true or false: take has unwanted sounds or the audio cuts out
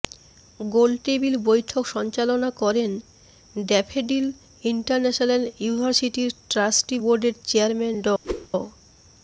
true